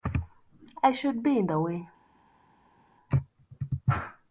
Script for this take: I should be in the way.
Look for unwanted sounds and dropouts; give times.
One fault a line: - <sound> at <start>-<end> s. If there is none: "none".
none